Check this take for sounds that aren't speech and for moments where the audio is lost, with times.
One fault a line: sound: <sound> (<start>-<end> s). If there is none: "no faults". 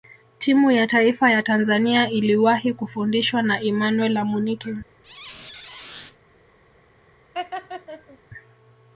sound: squeak (5.0-6.2 s)
sound: laugh (7.3-8.2 s)